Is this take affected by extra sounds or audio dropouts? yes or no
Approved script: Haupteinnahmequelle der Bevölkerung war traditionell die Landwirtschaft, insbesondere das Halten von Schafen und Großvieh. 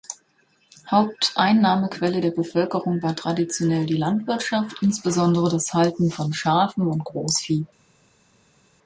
no